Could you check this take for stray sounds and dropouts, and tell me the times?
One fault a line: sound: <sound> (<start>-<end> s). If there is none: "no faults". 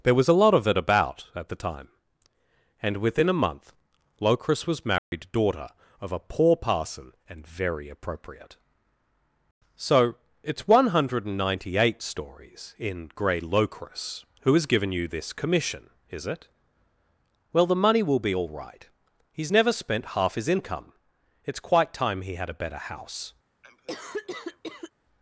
sound: dropout (5.0-5.1 s)
sound: cough (23.6-24.9 s)